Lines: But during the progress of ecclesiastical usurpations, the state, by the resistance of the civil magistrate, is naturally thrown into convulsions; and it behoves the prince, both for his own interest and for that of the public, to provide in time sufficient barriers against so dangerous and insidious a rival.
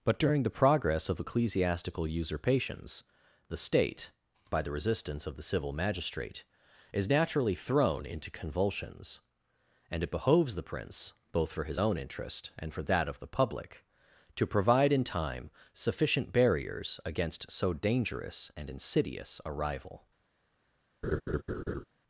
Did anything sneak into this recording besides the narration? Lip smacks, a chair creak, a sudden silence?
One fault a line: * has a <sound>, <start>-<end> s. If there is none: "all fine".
* has a laugh, 21.0-21.8 s